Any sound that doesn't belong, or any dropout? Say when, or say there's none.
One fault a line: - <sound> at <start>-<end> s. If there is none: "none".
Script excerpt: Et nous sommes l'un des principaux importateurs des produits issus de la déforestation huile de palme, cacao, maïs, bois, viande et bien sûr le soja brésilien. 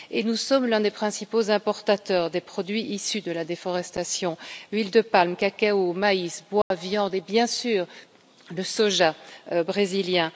- dropout at 6.6-6.7 s